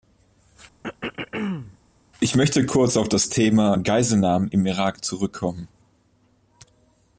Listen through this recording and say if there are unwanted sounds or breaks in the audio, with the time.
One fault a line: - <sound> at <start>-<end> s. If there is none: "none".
- throat clearing at 0.8-1.8 s